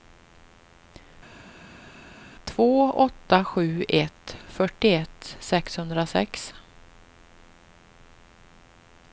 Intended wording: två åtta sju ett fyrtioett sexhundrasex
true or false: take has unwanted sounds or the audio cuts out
false